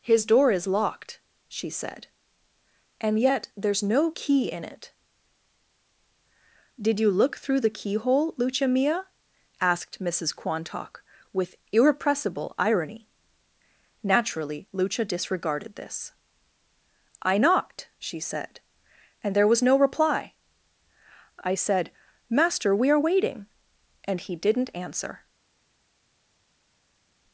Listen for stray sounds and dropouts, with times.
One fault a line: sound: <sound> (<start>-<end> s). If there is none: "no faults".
no faults